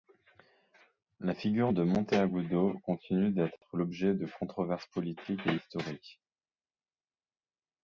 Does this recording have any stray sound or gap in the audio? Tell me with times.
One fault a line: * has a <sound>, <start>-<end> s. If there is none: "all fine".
all fine